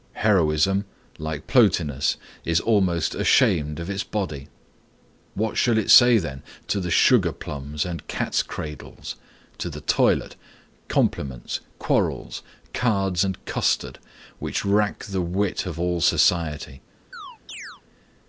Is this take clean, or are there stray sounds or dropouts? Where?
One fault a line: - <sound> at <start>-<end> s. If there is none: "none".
- chirp at 17.1-17.8 s